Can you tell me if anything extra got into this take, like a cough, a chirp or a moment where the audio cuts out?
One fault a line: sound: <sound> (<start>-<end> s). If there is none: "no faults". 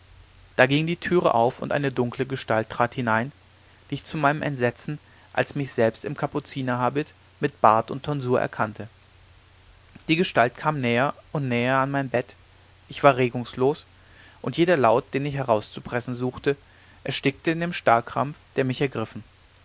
no faults